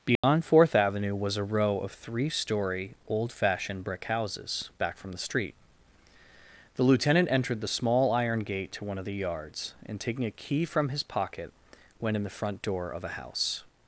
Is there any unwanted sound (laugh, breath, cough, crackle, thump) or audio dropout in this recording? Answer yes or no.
yes